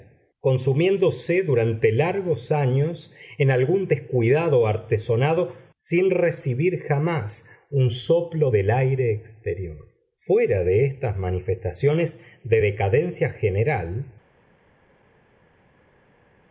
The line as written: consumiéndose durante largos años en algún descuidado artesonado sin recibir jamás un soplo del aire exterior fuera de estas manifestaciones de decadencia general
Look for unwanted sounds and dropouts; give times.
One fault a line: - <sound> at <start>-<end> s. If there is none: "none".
none